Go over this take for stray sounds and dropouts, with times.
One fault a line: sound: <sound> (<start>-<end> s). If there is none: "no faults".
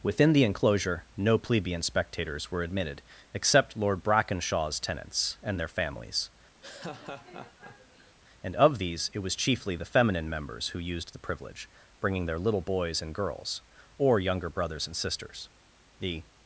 sound: laugh (6.6-8.2 s)